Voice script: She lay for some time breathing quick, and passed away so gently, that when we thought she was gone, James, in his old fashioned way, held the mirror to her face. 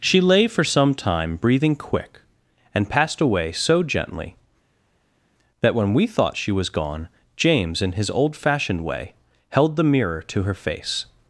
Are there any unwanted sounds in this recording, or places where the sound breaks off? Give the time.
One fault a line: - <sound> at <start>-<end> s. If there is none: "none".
none